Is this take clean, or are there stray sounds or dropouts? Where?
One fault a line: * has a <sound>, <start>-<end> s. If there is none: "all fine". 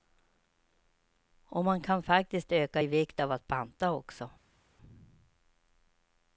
all fine